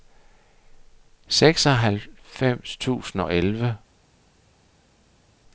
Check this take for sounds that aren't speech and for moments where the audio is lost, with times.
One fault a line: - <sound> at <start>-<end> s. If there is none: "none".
none